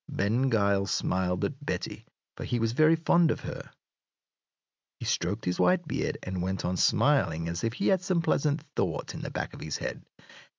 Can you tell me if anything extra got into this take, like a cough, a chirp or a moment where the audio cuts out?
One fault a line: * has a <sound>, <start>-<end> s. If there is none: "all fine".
all fine